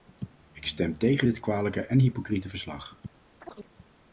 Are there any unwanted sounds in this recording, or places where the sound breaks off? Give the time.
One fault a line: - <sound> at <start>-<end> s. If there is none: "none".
- chirp at 3.4-3.7 s